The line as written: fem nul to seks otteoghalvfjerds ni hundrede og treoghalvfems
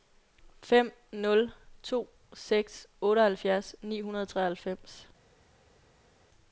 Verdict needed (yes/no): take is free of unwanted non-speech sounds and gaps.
yes